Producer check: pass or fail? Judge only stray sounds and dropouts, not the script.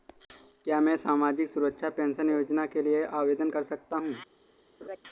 fail